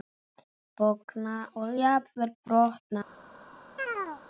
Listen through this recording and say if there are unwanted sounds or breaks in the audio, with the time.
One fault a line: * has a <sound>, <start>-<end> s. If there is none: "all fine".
* has a chirp, 3.8-4.2 s